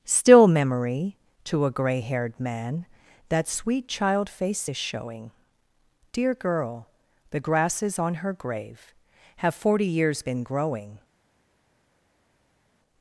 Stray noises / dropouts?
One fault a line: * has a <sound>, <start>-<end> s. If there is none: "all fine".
all fine